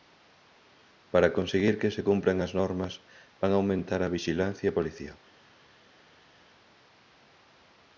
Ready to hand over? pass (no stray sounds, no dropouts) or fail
pass